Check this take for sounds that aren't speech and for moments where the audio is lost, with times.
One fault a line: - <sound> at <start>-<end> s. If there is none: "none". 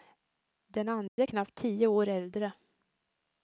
- dropout at 1.1-1.2 s